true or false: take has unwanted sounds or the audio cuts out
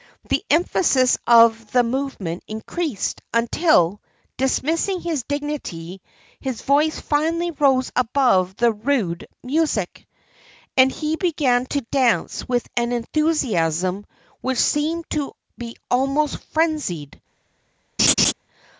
true